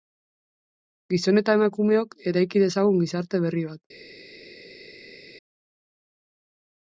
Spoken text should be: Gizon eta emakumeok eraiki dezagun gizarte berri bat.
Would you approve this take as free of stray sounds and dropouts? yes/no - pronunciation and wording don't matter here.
yes